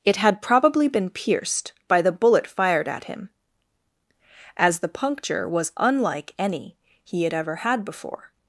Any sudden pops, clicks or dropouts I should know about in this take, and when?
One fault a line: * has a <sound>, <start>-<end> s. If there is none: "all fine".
all fine